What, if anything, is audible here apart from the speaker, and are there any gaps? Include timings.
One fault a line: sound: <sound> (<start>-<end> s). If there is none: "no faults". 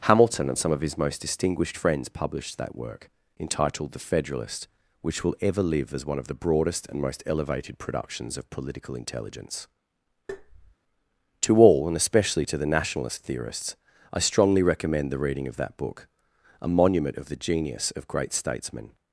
sound: tap (10.3-10.8 s)